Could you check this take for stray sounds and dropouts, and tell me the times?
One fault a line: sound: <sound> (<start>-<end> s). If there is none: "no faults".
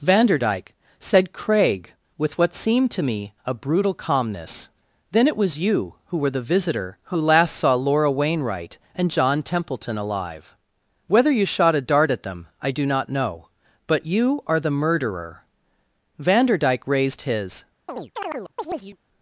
sound: chirp (17.9-19.0 s)